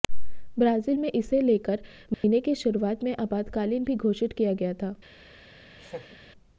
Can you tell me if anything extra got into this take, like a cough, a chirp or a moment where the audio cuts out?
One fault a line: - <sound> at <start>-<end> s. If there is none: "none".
- dropout at 2.1-2.2 s
- laugh at 5.8-6.2 s